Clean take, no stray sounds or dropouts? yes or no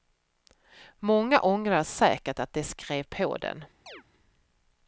no